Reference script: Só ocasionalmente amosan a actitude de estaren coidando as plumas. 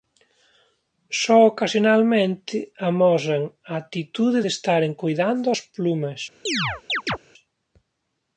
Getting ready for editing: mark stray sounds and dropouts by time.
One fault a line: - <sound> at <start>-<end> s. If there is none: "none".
- chirp at 6.5-7.2 s